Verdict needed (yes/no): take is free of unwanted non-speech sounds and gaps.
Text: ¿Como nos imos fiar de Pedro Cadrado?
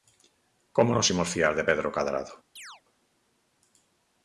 no